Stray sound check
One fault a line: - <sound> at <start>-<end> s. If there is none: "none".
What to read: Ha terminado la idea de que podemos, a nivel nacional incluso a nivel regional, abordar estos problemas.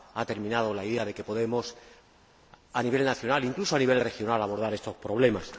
none